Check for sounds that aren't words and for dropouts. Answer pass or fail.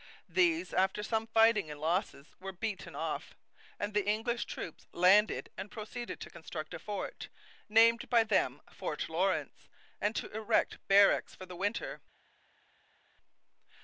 pass